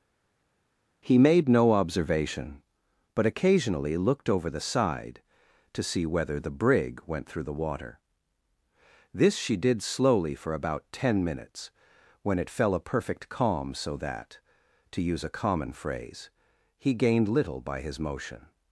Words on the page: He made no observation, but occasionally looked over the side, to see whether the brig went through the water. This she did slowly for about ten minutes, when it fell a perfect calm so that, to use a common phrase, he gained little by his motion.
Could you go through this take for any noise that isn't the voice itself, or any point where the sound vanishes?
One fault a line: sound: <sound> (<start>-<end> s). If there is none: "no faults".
no faults